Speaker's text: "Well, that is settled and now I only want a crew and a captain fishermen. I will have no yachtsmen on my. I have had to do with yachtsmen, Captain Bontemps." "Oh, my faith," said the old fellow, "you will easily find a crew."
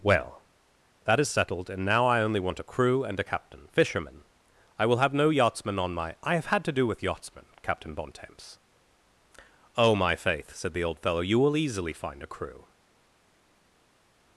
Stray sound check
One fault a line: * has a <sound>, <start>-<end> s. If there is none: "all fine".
all fine